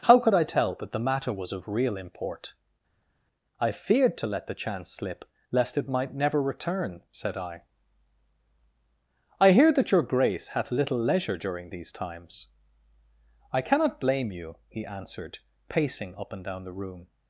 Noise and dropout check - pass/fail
pass